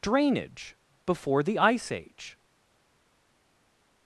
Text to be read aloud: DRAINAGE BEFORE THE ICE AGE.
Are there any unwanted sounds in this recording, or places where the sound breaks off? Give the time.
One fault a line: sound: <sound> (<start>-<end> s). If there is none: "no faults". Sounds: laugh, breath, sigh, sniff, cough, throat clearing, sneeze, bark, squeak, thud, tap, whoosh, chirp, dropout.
no faults